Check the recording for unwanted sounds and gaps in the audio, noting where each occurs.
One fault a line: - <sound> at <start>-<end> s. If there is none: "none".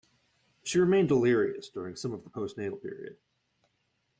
none